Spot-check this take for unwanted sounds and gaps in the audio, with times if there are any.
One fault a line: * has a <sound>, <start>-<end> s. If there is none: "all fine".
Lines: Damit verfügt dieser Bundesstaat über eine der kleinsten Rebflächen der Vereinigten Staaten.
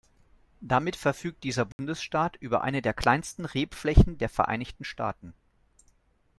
* has a dropout, 1.7-1.8 s